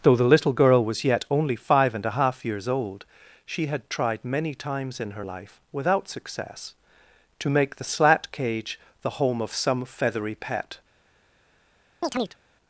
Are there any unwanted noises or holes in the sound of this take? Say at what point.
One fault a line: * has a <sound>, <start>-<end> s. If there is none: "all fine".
* has a chirp, 12.0-12.4 s